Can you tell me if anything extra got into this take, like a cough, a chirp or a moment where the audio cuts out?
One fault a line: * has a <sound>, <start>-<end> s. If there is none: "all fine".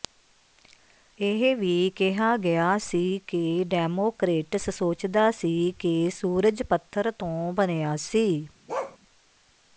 * has a bark, 8.7-9.0 s